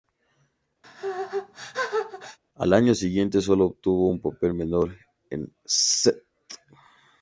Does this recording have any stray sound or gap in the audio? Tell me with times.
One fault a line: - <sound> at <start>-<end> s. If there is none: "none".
- sneeze at 0.8-2.4 s